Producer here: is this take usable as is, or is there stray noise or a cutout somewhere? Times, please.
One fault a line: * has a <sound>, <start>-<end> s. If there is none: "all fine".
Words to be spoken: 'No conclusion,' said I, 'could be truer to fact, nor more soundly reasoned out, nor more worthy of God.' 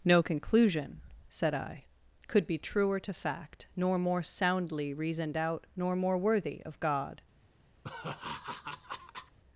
* has a laugh, 7.8-9.4 s